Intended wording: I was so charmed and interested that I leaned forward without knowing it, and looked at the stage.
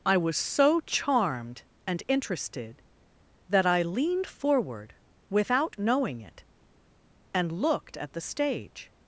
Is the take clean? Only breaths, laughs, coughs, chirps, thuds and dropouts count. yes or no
yes